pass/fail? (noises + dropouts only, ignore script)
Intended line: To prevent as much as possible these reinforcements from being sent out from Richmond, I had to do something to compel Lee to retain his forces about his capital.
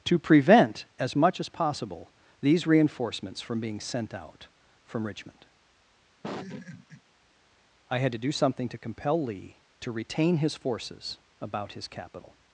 fail